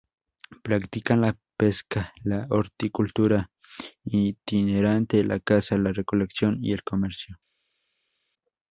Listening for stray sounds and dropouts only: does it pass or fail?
pass